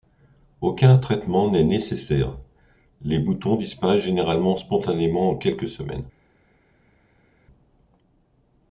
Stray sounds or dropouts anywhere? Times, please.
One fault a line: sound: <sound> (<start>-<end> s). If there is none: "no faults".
no faults